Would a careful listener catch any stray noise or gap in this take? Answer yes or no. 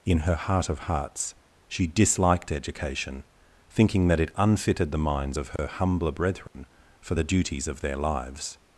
yes